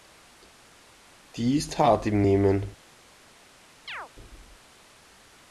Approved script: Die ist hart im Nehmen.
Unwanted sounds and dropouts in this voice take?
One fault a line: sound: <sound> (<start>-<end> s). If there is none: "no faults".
sound: chirp (3.9-4.1 s)